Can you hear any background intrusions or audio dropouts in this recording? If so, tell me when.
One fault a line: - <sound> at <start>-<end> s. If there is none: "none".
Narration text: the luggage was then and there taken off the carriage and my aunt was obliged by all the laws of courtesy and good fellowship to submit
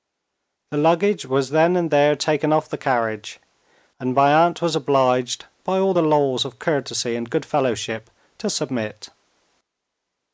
none